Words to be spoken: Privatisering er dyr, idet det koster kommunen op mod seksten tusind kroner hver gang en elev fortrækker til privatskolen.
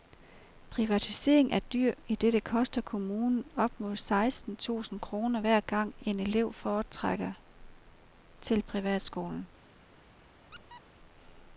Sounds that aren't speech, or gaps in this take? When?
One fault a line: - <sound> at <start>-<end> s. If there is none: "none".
- squeak at 10.5-10.8 s